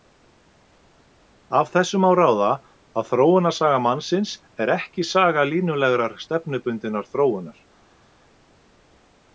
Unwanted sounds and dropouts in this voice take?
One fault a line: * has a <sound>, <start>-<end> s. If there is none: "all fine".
all fine